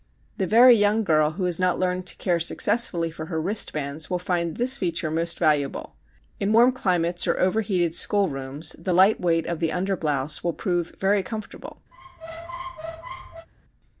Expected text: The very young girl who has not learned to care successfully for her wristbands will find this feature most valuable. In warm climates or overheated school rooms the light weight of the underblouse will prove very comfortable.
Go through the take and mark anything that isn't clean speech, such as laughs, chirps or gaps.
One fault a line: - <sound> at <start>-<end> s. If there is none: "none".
- squeak at 11.9-13.5 s